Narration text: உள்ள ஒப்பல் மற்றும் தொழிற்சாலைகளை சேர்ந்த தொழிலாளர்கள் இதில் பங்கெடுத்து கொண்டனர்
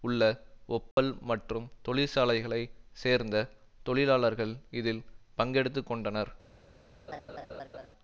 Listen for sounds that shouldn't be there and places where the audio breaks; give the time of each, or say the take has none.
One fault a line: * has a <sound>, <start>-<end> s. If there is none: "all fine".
* has a dropout, 0.9-1.0 s
* has a laugh, 7.1-7.9 s